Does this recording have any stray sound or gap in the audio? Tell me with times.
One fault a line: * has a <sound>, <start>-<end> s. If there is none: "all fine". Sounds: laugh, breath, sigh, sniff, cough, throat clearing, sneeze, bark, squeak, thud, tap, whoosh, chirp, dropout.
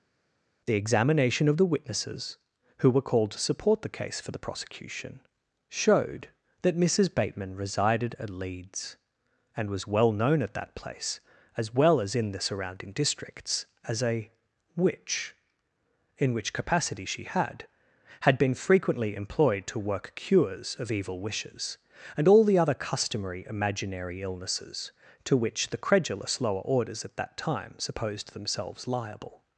all fine